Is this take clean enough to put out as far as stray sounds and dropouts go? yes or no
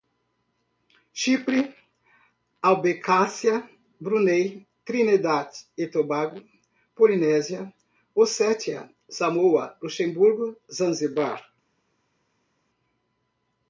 yes